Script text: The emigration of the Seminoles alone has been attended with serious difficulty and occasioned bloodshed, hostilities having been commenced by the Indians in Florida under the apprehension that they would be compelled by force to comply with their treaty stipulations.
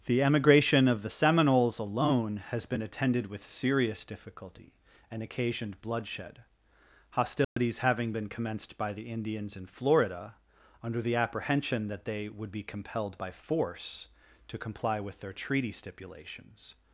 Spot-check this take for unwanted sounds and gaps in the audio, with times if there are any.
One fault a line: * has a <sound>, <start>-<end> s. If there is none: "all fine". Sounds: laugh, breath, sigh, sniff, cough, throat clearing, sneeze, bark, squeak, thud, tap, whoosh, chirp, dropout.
* has a dropout, 7.4-7.6 s